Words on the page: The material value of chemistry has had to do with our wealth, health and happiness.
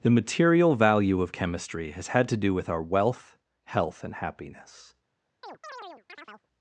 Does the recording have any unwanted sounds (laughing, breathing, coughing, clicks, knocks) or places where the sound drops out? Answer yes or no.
yes